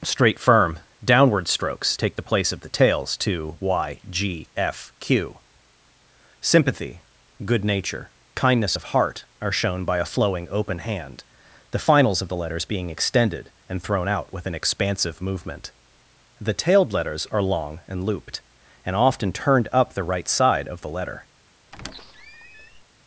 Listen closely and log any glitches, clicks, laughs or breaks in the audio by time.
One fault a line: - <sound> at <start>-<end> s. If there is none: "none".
- squeak at 21.7-22.8 s